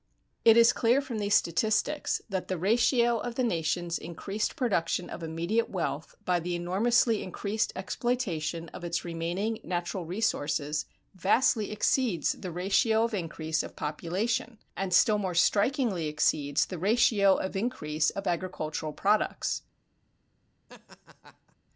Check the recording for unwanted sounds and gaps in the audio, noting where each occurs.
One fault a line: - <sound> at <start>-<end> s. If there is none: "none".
- laugh at 20.7-21.6 s